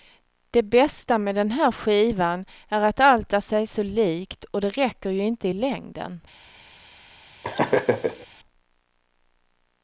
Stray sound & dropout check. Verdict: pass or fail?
fail